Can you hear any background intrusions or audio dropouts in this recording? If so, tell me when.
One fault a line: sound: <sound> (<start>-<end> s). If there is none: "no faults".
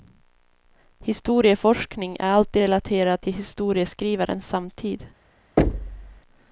sound: thud (5.6-6.2 s)